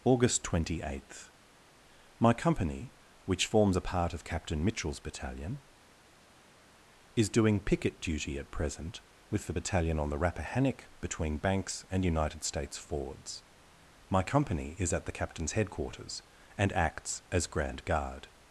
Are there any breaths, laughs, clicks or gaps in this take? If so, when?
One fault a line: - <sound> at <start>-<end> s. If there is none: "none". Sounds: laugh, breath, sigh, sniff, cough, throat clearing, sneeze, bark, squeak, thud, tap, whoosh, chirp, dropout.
none